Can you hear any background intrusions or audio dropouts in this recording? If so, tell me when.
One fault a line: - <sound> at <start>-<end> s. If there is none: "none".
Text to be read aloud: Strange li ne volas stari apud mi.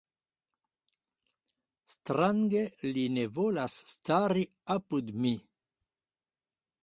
none